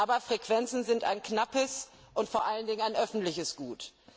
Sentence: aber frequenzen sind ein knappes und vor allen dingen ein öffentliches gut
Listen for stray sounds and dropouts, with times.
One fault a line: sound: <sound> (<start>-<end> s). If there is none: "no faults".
no faults